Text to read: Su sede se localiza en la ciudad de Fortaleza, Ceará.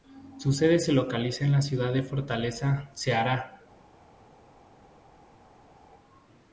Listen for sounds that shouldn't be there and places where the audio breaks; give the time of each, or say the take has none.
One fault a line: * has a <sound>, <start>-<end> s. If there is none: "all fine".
all fine